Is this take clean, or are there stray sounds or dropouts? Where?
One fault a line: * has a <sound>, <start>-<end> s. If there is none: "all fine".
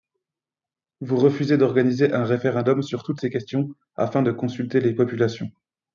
all fine